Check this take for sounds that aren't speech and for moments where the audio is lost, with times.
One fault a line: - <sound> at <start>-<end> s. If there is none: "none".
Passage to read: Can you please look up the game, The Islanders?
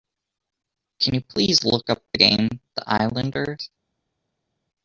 none